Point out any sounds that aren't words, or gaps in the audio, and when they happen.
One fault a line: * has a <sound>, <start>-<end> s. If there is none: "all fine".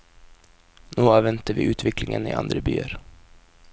all fine